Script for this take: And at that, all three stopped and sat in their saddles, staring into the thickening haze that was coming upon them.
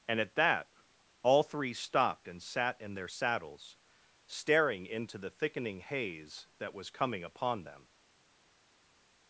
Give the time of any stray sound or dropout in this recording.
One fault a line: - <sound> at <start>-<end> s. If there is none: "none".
none